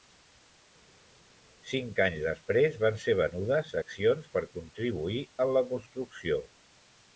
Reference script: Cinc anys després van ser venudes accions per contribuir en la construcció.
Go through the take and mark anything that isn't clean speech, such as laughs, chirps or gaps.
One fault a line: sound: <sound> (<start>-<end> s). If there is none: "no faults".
no faults